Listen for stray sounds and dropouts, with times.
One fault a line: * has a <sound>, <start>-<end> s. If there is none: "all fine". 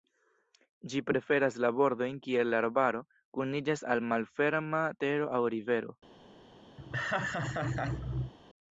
* has a laugh, 6.8-8.3 s